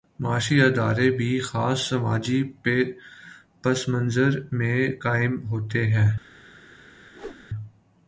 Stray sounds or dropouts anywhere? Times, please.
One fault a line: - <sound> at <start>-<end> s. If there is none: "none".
- whoosh at 7.1-7.5 s